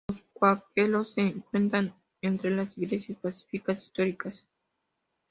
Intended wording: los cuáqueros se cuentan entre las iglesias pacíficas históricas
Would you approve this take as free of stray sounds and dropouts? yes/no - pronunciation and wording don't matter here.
yes